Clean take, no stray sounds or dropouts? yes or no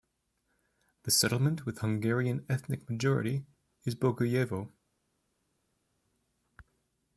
yes